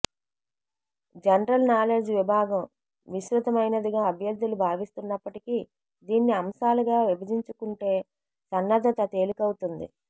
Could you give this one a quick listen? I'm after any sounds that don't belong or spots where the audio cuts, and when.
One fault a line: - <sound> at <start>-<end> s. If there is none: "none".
none